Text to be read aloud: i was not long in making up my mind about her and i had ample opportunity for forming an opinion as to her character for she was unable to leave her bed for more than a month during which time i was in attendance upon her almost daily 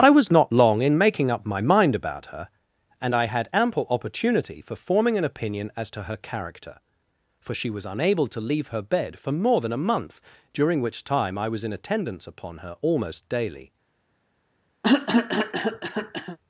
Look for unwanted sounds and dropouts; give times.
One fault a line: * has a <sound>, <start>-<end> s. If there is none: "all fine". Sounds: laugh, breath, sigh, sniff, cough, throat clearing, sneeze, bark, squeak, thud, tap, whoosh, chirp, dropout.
* has a cough, 14.8-16.4 s